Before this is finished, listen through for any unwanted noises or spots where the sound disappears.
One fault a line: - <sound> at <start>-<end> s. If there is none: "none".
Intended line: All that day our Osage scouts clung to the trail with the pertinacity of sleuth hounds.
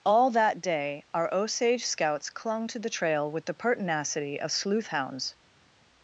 none